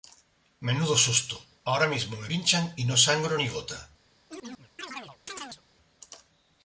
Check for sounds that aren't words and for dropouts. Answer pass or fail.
fail